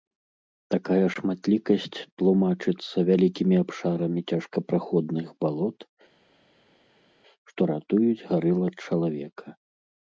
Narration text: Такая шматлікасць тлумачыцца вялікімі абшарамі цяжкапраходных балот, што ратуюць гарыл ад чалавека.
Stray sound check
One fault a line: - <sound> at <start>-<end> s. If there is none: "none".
none